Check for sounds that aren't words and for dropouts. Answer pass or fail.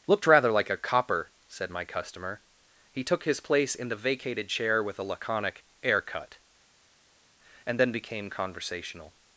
pass